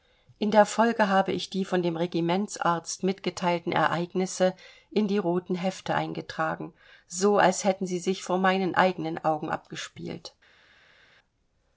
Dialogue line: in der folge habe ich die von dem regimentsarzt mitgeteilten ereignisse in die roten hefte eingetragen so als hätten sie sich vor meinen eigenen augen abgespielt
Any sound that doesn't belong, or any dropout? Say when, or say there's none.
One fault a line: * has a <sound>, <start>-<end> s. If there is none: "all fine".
all fine